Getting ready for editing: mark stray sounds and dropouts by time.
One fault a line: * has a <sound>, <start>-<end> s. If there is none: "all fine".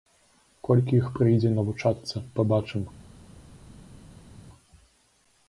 all fine